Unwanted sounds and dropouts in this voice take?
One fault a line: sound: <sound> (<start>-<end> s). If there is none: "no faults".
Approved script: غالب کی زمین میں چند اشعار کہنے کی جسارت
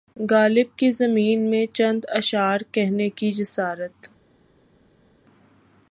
no faults